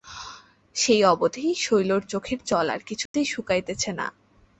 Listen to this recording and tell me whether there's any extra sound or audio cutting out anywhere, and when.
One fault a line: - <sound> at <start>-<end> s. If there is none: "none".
- dropout at 3.1-3.1 s